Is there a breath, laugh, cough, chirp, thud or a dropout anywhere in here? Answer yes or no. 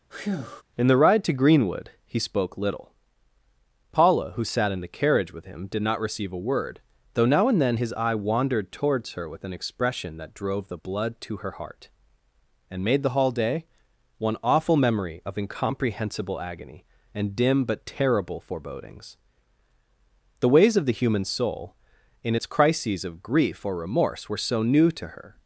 yes